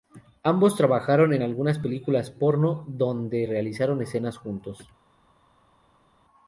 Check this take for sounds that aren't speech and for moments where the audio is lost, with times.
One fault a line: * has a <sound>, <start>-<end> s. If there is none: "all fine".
all fine